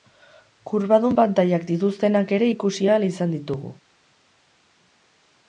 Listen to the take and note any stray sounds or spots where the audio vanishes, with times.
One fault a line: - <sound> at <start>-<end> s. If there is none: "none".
none